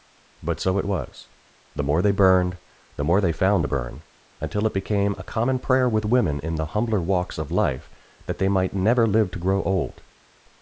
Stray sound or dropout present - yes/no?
no